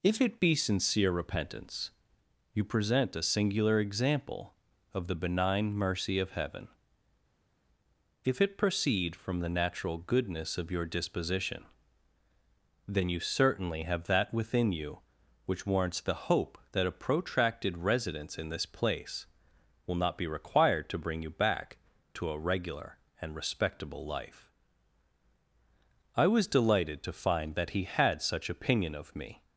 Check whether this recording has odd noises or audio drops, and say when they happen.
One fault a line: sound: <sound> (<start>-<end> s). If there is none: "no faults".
no faults